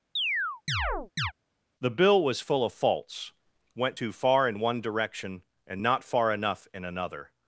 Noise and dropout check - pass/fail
fail